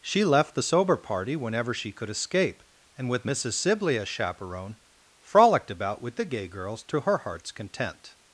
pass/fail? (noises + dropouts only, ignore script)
pass